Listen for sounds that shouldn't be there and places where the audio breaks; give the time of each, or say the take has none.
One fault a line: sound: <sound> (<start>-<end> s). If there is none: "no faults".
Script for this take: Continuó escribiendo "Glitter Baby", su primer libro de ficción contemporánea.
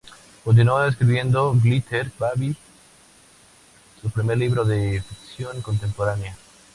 no faults